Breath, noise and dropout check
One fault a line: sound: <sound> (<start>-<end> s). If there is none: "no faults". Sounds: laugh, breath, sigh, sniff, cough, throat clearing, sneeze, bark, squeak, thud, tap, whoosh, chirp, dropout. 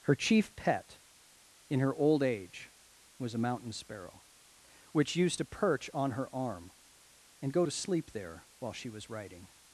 no faults